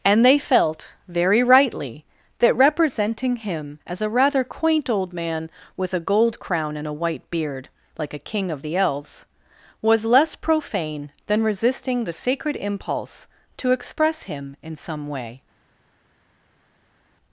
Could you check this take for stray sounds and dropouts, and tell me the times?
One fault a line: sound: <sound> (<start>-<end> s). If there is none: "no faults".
no faults